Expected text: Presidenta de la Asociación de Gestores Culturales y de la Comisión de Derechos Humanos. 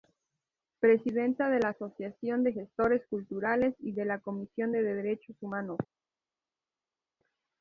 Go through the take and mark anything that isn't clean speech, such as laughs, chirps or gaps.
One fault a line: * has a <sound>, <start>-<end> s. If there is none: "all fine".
all fine